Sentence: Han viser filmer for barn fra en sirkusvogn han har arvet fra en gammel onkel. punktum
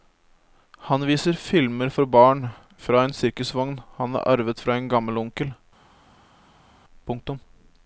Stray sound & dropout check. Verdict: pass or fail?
pass